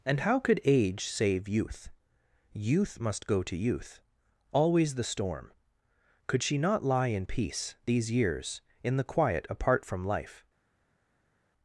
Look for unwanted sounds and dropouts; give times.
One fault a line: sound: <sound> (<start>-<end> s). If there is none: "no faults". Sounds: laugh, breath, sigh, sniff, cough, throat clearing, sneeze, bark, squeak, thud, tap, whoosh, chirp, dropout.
no faults